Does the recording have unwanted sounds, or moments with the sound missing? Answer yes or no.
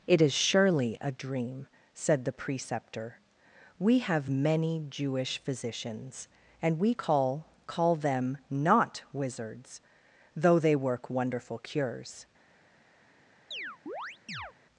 yes